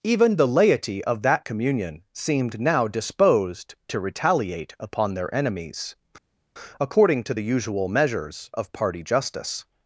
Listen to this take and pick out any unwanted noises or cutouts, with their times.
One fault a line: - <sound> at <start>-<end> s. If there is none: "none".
none